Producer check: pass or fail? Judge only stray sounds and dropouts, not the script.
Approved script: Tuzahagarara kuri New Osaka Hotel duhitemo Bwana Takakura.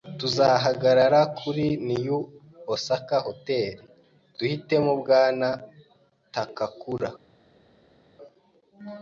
pass